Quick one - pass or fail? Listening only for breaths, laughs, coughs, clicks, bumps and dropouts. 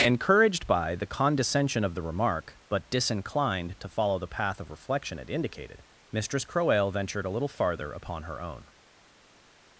pass